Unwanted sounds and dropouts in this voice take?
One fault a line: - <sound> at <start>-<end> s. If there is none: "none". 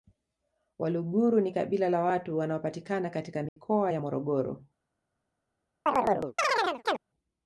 - dropout at 3.5-3.6 s
- chirp at 5.9-7.0 s